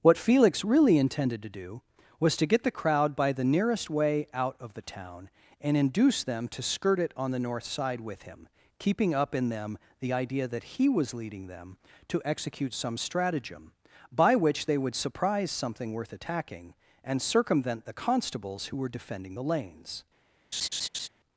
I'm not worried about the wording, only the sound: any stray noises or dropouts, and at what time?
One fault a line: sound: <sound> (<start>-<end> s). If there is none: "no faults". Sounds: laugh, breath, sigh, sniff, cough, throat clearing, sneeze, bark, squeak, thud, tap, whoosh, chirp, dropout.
sound: laugh (20.5-21.1 s)